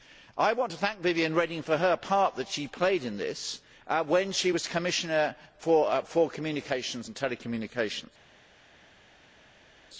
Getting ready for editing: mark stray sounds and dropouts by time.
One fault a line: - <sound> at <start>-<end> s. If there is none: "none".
none